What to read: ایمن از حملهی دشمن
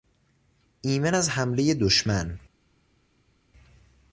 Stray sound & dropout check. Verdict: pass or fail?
pass